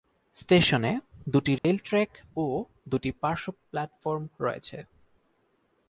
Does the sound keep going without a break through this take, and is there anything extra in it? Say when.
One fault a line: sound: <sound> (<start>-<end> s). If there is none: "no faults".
sound: dropout (1.6-1.6 s)